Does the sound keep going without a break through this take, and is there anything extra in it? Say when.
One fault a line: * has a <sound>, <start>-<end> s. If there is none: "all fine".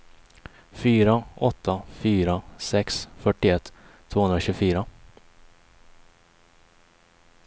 all fine